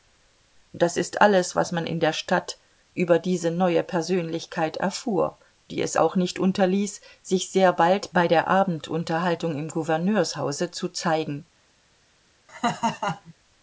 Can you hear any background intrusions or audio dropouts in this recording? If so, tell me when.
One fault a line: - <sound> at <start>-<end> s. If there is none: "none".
- laugh at 12.5-13.3 s